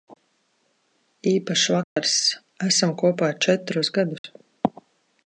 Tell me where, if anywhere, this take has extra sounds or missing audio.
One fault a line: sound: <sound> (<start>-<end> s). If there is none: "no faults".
sound: dropout (1.8-2.0 s)
sound: dropout (4.2-4.2 s)